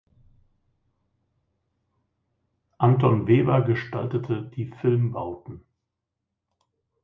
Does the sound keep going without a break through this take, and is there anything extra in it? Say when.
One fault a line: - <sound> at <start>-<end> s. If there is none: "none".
none